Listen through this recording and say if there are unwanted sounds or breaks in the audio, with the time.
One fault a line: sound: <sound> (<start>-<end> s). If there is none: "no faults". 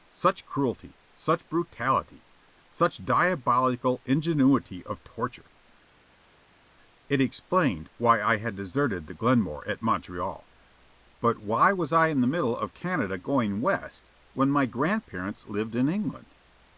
no faults